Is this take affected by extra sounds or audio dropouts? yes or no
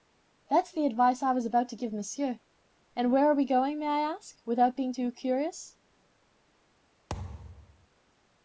yes